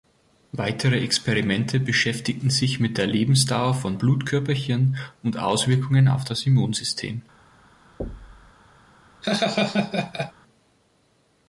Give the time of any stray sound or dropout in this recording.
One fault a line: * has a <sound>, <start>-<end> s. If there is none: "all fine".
* has a thud, 8.0-8.5 s
* has a laugh, 9.2-10.3 s